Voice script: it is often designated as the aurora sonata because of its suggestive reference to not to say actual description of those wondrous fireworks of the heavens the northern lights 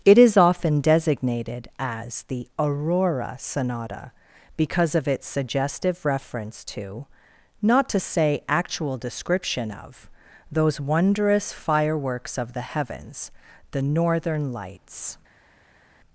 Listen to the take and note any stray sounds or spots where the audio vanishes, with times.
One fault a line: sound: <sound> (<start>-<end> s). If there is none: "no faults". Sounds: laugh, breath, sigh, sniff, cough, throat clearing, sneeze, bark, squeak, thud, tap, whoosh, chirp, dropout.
no faults